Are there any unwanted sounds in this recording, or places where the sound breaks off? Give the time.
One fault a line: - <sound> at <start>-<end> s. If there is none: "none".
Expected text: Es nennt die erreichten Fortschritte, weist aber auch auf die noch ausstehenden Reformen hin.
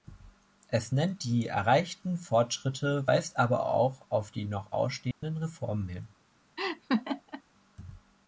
- dropout at 5.1-5.2 s
- laugh at 6.6-7.4 s